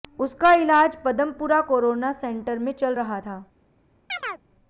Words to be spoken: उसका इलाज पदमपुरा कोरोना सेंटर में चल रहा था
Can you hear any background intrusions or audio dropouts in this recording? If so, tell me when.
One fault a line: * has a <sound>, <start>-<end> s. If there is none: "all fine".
* has a chirp, 4.1-4.4 s